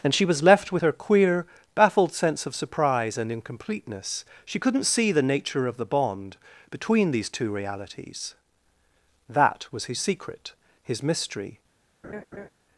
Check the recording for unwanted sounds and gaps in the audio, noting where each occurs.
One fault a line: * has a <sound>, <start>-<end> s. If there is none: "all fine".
* has a laugh, 12.0-12.5 s